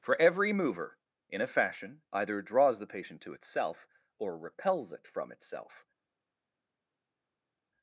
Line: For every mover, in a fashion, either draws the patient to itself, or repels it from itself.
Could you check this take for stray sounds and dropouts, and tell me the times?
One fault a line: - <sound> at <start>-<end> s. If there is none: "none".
none